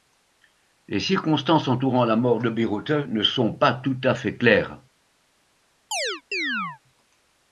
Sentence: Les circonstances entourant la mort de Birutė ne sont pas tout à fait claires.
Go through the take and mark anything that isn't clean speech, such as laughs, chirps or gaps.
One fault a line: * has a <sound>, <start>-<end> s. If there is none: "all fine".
* has a chirp, 5.9-6.8 s